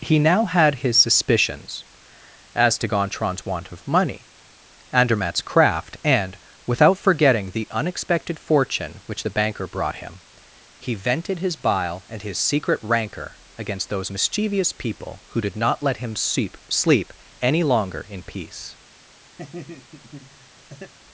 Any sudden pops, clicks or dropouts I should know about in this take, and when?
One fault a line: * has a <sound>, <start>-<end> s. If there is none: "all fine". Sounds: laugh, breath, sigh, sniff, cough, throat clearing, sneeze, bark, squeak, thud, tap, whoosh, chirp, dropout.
* has a laugh, 19.4-20.9 s